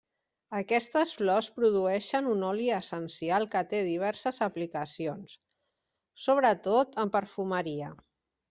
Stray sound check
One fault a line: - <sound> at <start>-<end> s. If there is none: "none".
none